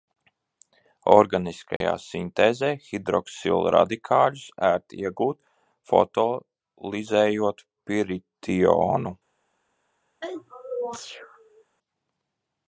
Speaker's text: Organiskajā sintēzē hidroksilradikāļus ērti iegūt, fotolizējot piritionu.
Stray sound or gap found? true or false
true